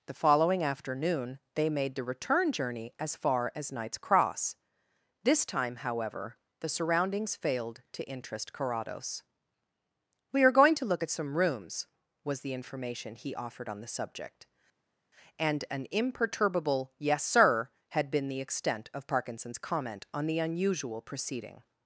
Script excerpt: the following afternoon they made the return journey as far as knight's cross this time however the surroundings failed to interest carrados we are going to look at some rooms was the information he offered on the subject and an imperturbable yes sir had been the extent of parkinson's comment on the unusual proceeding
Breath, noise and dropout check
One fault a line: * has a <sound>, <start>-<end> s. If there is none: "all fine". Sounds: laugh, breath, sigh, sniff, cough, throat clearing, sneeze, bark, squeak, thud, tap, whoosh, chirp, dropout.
all fine